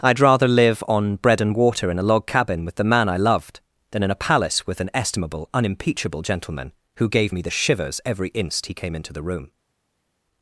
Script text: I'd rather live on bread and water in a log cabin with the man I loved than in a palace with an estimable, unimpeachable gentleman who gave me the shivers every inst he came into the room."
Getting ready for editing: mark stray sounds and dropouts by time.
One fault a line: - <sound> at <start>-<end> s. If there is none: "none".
none